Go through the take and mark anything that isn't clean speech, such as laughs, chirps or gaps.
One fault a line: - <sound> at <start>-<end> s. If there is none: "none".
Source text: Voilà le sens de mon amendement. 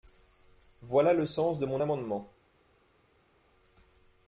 none